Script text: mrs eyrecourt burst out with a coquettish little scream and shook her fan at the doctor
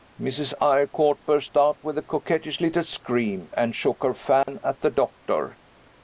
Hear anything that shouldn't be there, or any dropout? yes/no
yes